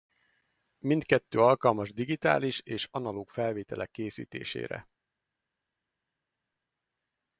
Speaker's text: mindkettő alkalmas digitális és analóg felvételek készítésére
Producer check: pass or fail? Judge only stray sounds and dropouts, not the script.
pass